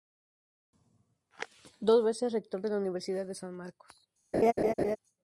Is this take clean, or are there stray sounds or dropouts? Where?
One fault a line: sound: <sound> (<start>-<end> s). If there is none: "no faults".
sound: laugh (4.3-5.0 s)